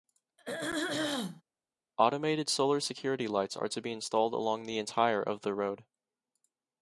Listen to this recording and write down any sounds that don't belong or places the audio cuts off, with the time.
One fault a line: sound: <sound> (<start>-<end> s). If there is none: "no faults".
sound: throat clearing (0.4-1.4 s)